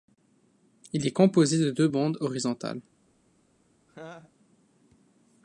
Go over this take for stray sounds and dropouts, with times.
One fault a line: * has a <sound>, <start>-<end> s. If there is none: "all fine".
* has a laugh, 3.9-4.3 s